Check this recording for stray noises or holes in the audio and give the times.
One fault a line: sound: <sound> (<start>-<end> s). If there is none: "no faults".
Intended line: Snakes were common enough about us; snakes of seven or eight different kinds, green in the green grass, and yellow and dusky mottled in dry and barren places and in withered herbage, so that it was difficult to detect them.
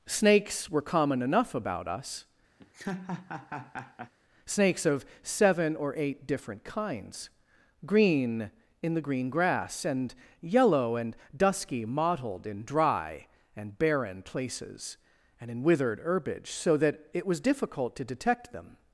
sound: laugh (2.6-4.1 s)